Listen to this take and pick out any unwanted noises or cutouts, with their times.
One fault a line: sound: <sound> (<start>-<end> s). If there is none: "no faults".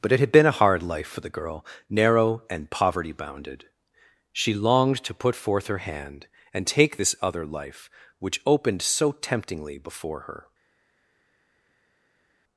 no faults